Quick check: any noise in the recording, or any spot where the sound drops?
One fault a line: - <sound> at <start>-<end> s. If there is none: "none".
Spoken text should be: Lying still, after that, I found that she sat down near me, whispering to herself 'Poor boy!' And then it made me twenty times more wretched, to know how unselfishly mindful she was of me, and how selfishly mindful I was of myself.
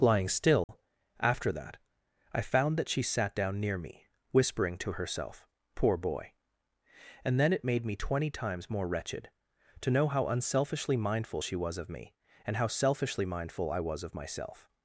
- dropout at 0.6-0.7 s